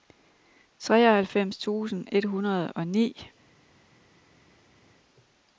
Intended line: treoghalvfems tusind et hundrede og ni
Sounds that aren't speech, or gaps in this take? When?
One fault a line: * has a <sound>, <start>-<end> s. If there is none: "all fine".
all fine